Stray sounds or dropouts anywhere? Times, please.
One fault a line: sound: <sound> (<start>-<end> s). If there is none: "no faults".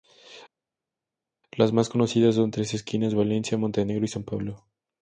no faults